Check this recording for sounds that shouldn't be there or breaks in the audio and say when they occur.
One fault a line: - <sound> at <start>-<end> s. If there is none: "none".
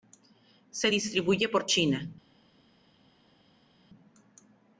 none